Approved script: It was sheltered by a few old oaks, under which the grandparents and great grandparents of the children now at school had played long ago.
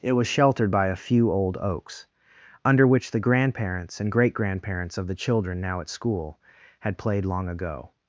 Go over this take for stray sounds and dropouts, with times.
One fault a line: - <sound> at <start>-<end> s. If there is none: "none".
none